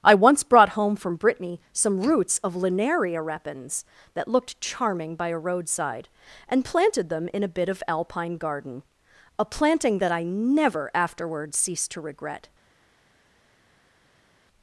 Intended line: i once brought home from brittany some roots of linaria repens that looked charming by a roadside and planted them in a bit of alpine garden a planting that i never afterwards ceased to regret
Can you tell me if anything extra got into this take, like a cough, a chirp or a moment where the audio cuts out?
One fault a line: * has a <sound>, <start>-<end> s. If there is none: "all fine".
all fine